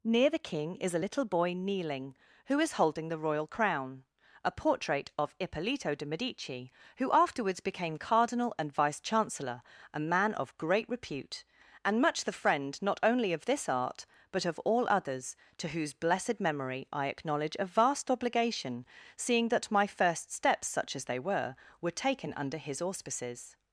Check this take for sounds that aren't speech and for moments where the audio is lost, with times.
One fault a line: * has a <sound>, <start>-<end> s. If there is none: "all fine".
all fine